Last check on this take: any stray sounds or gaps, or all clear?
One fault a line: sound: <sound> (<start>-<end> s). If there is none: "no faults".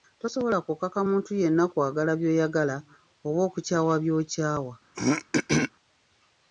sound: throat clearing (4.9-5.7 s)